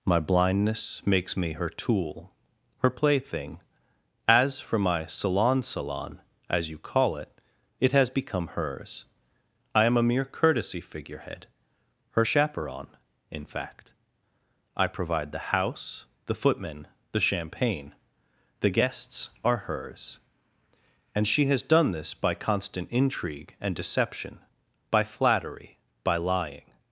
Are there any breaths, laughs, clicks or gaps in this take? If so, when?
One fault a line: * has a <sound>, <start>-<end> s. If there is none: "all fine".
all fine